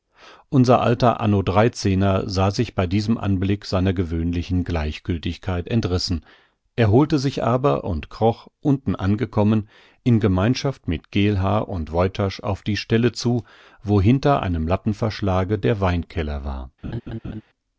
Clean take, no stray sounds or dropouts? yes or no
no